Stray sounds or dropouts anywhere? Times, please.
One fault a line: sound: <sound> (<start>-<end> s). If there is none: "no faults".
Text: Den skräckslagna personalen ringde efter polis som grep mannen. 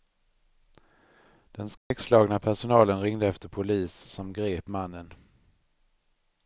sound: dropout (1.8-1.9 s)